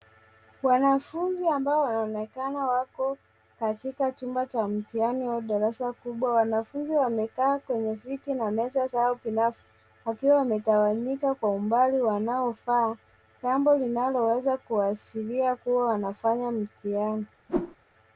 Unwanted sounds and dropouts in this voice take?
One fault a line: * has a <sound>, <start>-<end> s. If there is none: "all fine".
* has a whoosh, 17.5-17.8 s